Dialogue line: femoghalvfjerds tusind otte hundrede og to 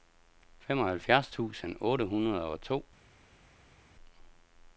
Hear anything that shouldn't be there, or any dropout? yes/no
no